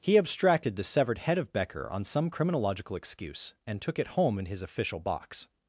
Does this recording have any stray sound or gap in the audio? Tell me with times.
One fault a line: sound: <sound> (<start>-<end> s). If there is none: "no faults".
no faults